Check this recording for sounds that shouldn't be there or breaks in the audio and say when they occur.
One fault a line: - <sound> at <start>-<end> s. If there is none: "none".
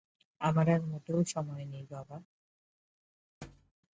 - thud at 3.4-3.7 s